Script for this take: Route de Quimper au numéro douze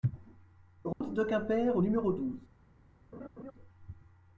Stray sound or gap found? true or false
true